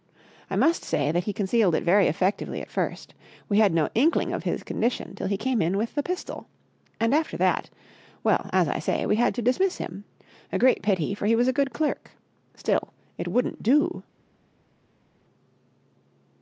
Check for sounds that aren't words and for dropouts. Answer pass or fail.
pass